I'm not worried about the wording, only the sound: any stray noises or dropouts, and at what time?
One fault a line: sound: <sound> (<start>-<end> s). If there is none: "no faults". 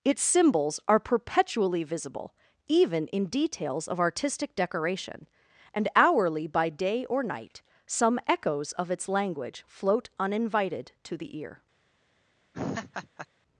sound: laugh (12.5-13.3 s)